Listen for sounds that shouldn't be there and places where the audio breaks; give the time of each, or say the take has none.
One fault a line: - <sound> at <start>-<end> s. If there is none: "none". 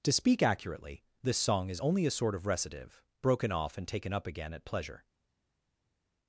none